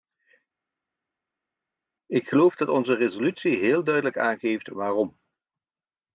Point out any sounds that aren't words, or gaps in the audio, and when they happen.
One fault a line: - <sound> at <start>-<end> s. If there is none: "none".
none